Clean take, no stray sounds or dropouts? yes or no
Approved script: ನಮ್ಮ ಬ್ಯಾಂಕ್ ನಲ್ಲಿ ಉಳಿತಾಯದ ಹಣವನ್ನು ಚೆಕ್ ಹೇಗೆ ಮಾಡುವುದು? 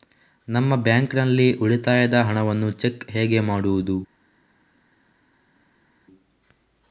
yes